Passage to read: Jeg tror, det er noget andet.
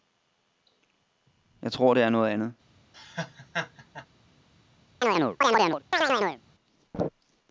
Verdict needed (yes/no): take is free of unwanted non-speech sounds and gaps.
no